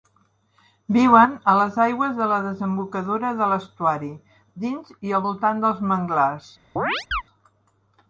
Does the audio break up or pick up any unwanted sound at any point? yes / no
yes